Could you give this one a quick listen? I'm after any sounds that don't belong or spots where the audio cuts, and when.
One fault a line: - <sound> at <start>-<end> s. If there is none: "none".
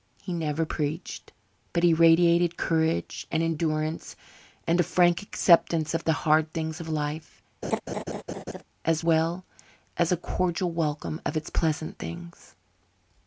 - laugh at 7.6-8.6 s